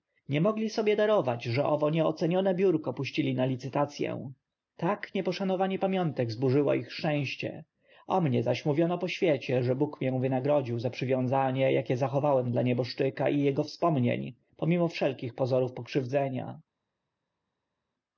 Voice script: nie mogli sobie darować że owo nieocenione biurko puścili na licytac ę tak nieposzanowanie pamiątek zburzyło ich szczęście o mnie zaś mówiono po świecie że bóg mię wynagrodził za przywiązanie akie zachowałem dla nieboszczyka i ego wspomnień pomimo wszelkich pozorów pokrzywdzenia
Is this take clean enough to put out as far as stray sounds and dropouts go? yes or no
yes